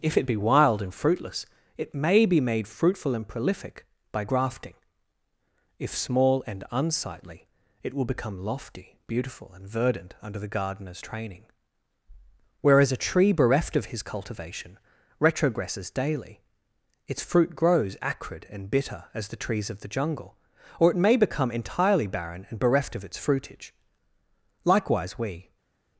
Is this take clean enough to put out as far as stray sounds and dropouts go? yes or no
yes